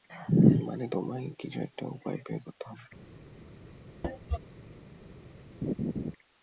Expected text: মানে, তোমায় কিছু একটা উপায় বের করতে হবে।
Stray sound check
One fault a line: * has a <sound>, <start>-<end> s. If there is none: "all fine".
* has a cough, 4.0-4.4 s
* has a laugh, 5.6-6.1 s